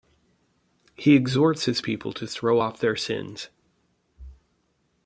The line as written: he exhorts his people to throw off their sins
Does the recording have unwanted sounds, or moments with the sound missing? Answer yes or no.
no